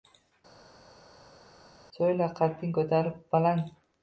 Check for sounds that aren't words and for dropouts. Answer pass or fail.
pass